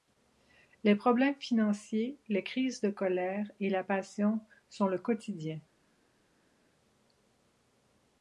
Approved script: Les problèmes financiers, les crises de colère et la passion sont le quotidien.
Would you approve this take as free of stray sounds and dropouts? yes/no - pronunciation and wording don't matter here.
yes